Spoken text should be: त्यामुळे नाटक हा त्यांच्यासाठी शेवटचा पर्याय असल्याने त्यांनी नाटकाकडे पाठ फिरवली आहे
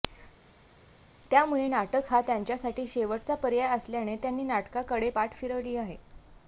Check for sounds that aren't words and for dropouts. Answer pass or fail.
pass